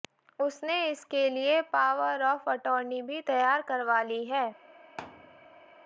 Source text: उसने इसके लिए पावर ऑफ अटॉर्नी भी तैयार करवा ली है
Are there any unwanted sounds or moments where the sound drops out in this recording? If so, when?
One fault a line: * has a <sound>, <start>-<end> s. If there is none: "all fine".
* has a thud, 5.0-5.8 s